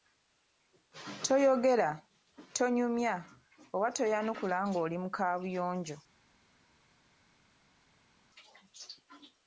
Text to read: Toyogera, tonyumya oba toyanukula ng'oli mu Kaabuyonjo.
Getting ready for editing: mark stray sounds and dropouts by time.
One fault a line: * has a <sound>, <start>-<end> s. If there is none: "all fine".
all fine